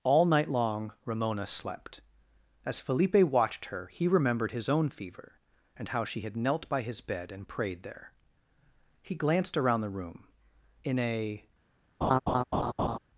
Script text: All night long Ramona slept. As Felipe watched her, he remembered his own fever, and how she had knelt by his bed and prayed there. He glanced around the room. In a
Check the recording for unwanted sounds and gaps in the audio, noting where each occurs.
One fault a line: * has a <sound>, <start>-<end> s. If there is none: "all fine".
* has a laugh, 12.0-13.0 s